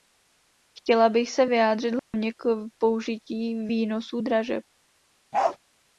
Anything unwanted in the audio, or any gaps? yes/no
yes